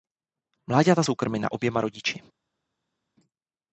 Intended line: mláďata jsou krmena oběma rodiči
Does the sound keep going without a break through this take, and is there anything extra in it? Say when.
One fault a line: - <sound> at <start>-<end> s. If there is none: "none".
none